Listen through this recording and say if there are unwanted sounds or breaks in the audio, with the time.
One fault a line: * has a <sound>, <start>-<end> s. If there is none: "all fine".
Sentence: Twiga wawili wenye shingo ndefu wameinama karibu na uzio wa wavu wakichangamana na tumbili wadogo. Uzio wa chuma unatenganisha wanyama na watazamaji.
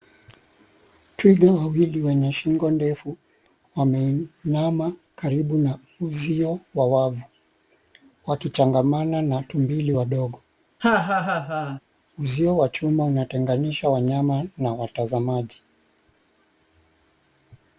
* has a laugh, 10.8-11.8 s